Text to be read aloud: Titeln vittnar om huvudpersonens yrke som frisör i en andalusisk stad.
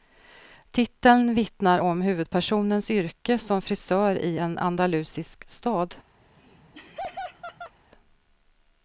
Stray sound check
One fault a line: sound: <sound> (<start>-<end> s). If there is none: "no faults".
sound: laugh (6.2-7.7 s)